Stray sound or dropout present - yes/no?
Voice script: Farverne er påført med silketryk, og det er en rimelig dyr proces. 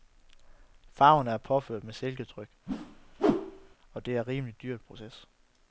yes